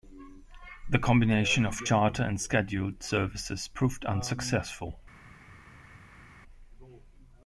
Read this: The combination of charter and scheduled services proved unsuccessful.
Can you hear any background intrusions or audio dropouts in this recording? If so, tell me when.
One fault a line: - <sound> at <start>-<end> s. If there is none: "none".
none